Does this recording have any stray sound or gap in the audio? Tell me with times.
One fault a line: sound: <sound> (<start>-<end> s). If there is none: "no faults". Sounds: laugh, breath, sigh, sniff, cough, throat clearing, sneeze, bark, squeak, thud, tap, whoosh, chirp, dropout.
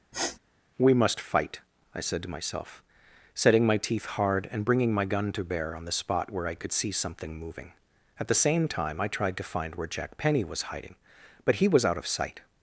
sound: sniff (0.1-0.4 s)